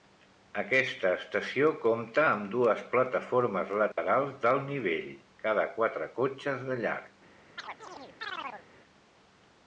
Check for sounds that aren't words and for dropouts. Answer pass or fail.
fail